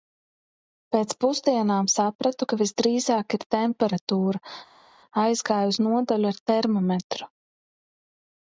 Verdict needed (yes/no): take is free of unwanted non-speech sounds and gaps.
yes